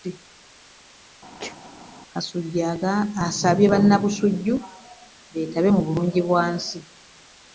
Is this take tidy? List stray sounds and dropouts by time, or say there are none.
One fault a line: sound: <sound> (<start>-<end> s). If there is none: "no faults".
sound: sneeze (1.4-1.6 s)